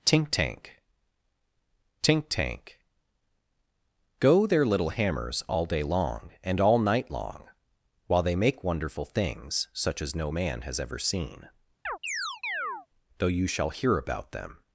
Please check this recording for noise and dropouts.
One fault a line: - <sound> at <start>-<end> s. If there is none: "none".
- chirp at 11.9-12.9 s